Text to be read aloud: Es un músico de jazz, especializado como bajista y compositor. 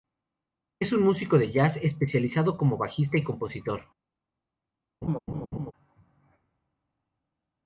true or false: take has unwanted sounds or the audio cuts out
true